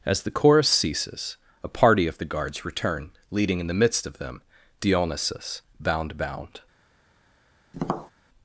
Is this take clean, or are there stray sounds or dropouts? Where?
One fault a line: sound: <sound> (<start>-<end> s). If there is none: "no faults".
sound: tap (7.7-8.1 s)